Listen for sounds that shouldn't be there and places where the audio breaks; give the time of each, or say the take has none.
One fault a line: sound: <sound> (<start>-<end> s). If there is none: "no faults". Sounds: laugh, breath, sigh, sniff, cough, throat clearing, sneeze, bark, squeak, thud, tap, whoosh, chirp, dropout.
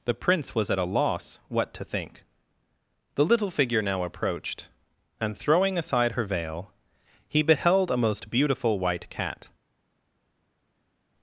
no faults